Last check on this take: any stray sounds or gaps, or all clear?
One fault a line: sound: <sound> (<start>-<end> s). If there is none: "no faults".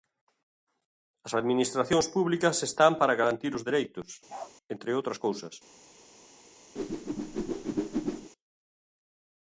sound: bark (4.3-4.5 s)
sound: whoosh (6.8-8.3 s)